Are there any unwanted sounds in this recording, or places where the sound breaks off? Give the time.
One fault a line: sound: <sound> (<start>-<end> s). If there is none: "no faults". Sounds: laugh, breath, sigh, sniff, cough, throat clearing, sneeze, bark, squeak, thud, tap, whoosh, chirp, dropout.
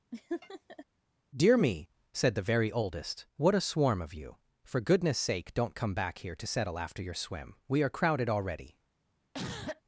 sound: laugh (0.1-0.9 s)
sound: cough (9.3-9.8 s)